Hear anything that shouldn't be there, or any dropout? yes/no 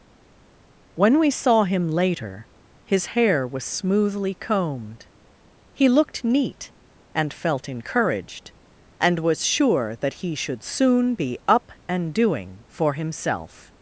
no